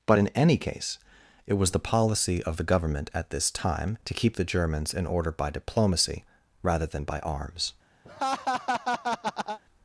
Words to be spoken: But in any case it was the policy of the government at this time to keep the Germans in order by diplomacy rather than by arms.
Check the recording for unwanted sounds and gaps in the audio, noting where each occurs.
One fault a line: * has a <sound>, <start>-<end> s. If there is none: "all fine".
* has a laugh, 8.0-9.6 s